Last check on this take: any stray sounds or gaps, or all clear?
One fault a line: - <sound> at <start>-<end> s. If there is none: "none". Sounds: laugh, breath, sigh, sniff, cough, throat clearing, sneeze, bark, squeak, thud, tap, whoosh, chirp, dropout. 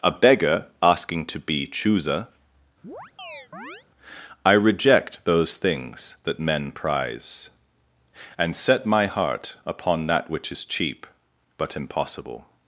- chirp at 2.8-3.8 s